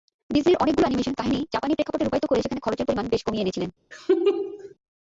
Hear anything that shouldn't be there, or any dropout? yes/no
yes